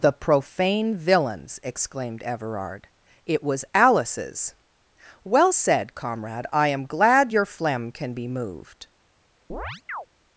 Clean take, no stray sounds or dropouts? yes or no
no